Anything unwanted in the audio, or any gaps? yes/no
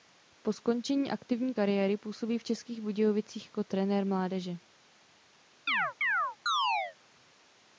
yes